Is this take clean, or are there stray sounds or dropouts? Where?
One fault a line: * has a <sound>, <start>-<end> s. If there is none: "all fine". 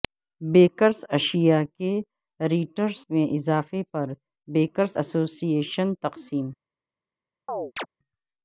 * has a chirp, 7.5-7.9 s